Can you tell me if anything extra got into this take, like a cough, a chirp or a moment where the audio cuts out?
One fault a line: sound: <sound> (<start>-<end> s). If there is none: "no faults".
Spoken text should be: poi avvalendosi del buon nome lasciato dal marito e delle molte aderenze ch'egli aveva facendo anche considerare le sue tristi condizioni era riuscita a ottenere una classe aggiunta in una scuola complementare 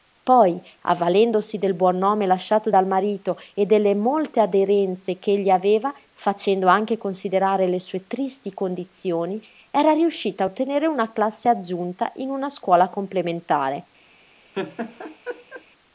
sound: laugh (14.5-15.6 s)